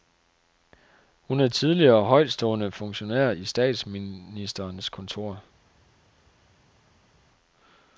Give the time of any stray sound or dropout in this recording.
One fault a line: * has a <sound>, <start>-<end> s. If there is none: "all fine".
all fine